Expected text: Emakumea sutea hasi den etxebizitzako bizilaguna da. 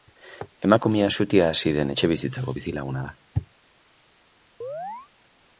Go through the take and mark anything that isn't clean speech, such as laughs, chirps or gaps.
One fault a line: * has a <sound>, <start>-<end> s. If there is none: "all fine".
* has a chirp, 4.6-5.1 s